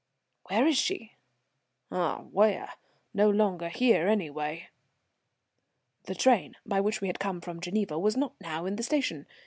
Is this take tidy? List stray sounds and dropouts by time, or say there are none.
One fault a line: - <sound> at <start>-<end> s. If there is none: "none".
none